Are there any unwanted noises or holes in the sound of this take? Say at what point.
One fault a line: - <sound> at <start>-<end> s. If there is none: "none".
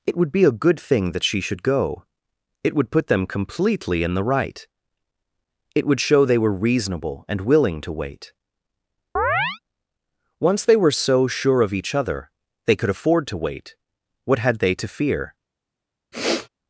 - chirp at 9.2-9.6 s
- sniff at 16.1-16.5 s